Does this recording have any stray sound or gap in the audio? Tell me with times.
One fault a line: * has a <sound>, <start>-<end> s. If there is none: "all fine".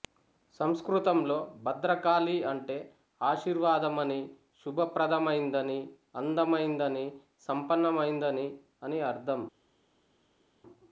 all fine